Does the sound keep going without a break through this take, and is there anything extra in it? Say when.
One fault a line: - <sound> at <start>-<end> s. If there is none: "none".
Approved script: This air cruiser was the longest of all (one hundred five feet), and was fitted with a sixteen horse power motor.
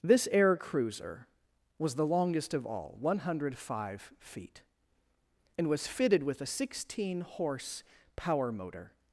none